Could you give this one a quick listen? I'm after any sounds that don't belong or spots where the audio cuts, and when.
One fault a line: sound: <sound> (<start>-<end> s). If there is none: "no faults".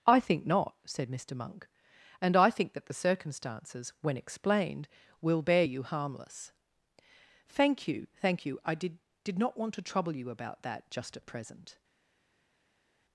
no faults